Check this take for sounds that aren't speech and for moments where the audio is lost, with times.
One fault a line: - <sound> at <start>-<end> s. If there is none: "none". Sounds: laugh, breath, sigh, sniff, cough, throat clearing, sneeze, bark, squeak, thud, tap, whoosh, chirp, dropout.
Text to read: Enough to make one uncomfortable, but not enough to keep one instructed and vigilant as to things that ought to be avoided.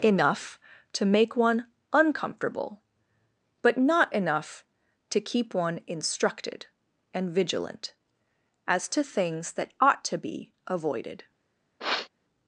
- sniff at 11.8-12.1 s